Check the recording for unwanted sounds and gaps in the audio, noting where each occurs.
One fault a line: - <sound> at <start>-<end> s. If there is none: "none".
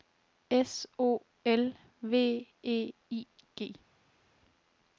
none